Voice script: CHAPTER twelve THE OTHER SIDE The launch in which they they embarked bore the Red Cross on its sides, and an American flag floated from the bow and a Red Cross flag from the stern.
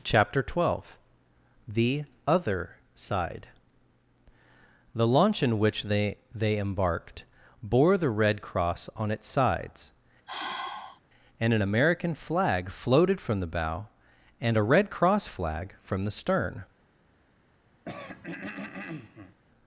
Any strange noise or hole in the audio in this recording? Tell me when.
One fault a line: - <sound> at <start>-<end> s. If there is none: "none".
- sigh at 10.3-11.0 s
- throat clearing at 17.8-19.4 s